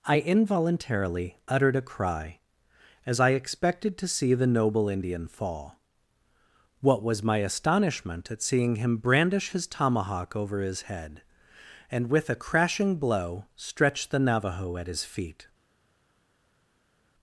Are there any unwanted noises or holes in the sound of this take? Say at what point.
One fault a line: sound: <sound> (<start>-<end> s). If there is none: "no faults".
no faults